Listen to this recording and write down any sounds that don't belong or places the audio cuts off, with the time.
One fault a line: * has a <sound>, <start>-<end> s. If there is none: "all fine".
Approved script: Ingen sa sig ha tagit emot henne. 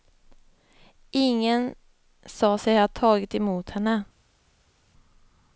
all fine